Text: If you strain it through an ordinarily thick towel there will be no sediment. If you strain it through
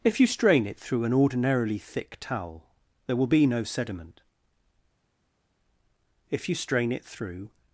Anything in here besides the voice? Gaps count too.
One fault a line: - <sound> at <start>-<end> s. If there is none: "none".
none